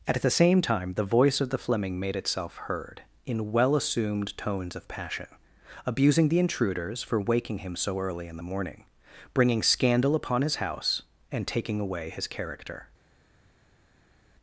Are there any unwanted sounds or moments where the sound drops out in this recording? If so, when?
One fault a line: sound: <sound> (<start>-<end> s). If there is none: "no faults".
no faults